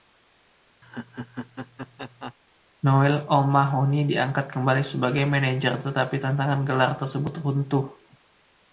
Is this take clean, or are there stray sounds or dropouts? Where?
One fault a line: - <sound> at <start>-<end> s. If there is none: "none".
- laugh at 0.8-2.3 s